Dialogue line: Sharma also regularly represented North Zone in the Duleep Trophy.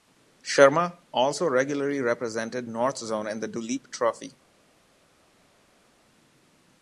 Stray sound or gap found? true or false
false